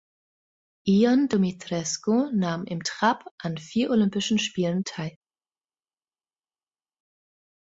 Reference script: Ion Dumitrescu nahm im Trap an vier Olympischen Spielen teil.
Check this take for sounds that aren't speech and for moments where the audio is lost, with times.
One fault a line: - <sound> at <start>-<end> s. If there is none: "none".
none